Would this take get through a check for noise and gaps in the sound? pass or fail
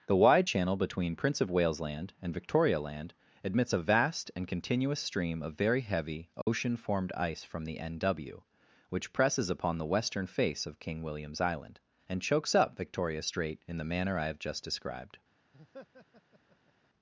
fail